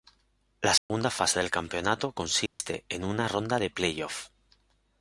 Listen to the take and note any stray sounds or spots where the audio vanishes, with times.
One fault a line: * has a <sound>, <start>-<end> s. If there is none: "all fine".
* has a dropout, 0.8-0.9 s
* has a dropout, 2.5-2.6 s